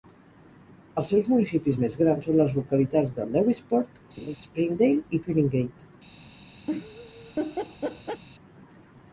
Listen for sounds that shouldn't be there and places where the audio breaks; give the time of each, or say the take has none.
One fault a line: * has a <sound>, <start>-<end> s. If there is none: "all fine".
* has a laugh, 4.2-4.4 s
* has a laugh, 6.7-8.2 s